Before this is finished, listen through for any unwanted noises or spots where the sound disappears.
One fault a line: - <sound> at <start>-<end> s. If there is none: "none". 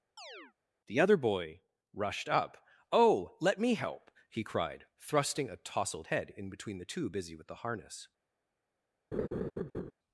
- chirp at 0.2-0.5 s
- laugh at 9.1-9.9 s